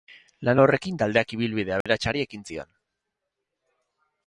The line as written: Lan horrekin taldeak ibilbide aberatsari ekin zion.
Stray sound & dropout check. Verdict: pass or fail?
fail